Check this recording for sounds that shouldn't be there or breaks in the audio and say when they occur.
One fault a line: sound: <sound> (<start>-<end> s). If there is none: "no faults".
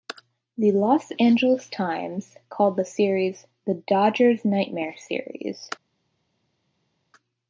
no faults